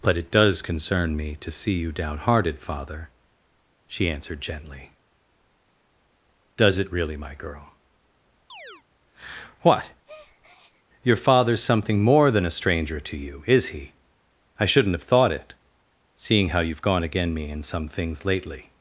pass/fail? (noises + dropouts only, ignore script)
fail